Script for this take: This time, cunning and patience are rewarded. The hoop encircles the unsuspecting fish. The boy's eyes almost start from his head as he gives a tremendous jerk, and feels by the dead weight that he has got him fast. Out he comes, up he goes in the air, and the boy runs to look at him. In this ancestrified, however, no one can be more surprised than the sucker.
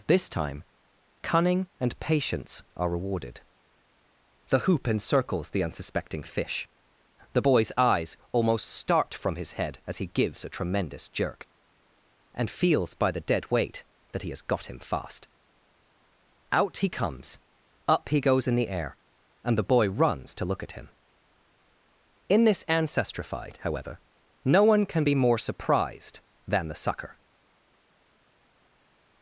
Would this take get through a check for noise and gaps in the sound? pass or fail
pass